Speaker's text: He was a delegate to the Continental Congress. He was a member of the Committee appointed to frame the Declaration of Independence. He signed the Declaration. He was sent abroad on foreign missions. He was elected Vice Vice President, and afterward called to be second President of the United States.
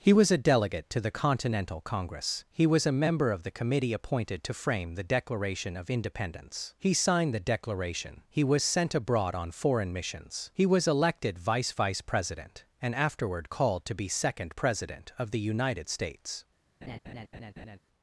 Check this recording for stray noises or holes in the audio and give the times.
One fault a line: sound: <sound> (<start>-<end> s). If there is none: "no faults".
sound: laugh (16.8-17.8 s)